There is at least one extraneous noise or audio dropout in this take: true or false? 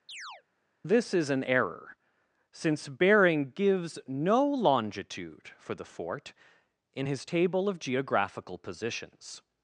true